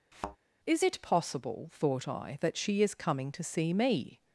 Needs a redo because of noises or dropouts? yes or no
yes